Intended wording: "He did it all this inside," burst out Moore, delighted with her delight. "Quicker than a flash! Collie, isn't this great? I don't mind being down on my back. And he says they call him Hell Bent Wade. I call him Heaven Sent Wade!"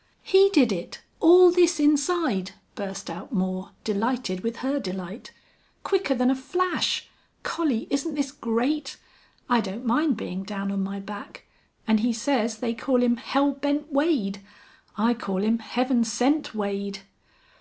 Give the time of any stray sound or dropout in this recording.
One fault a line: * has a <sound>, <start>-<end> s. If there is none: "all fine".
all fine